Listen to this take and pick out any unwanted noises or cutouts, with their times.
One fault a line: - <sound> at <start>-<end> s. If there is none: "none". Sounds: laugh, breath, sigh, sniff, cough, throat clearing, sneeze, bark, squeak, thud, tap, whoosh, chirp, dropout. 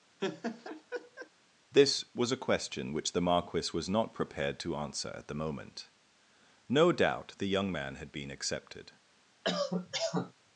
- laugh at 0.2-1.3 s
- cough at 9.4-10.3 s